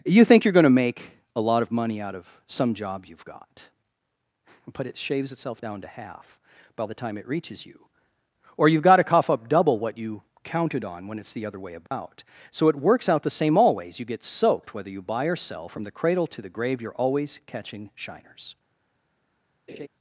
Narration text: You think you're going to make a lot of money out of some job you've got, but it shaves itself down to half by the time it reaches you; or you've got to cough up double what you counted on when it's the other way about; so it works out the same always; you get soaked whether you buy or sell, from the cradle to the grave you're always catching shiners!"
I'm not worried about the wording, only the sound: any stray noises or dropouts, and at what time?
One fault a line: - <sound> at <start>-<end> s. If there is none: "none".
- dropout at 11.9-11.9 s
- laugh at 19.7-19.9 s